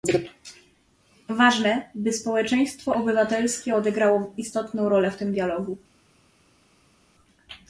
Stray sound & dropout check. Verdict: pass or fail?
pass